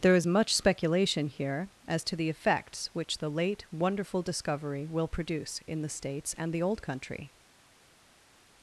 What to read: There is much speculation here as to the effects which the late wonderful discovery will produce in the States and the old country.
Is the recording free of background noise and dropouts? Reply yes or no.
yes